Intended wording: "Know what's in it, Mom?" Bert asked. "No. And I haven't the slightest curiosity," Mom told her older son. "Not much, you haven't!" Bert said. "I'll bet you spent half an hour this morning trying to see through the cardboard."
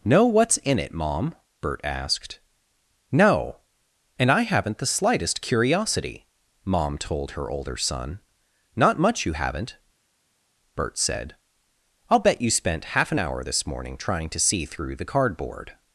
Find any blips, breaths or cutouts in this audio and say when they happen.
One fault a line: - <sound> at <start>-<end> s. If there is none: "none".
none